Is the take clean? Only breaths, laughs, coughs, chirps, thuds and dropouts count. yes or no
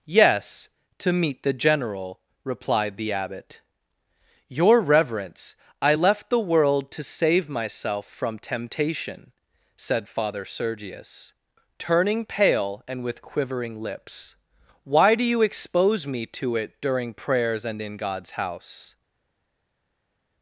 yes